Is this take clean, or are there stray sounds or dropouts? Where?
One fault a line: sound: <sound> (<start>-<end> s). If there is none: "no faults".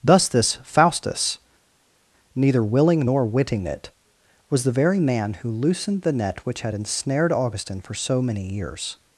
no faults